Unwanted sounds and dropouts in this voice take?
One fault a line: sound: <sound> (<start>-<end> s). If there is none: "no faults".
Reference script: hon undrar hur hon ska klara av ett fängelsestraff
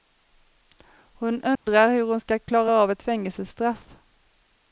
sound: dropout (1.6-1.7 s)